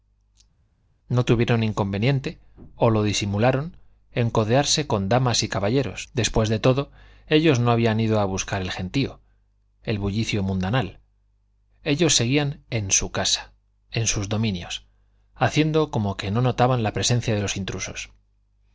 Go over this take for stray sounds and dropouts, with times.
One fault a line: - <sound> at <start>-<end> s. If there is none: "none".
none